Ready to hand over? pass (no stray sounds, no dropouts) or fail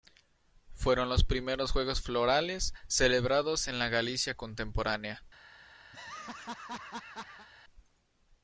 fail